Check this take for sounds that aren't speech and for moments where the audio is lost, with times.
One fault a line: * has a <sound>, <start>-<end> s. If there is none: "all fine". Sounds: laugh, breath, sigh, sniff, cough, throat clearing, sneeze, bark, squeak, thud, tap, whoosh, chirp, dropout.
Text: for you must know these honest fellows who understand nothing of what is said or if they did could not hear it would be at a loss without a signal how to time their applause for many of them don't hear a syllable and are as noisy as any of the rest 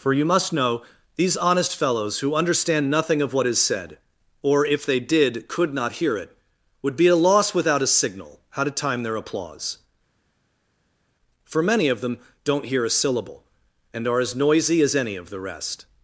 all fine